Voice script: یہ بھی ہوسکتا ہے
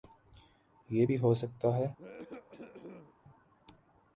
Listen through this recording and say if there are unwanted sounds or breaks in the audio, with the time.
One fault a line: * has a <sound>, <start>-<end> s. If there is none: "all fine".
* has a cough, 2.0-3.1 s